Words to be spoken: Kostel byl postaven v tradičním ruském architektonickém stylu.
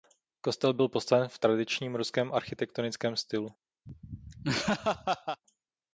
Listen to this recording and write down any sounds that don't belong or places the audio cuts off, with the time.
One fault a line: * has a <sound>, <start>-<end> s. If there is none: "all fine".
* has a laugh, 3.9-5.4 s